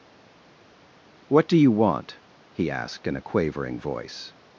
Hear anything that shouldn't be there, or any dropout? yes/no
no